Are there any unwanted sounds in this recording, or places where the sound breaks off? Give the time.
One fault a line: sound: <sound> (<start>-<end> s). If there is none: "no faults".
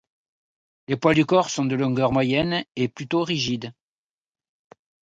no faults